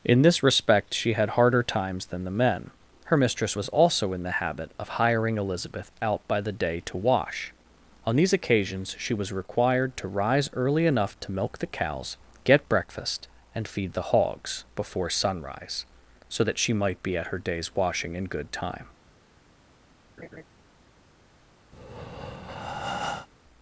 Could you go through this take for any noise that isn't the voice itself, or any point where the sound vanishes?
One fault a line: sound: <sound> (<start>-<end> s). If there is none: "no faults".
sound: laugh (20.2-20.4 s)
sound: breath (21.7-23.3 s)